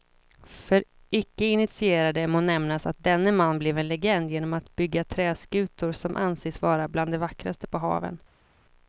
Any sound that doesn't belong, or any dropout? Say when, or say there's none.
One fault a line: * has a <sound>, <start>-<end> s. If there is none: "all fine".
all fine